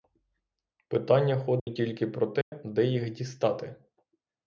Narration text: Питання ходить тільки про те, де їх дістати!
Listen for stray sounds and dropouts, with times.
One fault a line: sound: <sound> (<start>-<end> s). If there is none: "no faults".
sound: dropout (1.6-1.7 s)
sound: dropout (2.4-2.5 s)